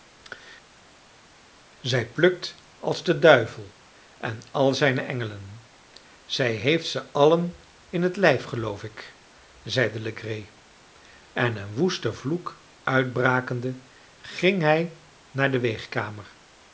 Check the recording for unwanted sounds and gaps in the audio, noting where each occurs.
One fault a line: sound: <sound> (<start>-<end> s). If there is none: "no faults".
no faults